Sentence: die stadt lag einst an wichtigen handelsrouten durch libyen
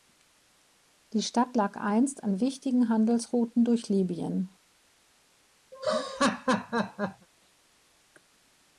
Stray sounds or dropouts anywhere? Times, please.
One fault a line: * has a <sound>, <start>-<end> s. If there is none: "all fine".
* has a laugh, 5.7-7.3 s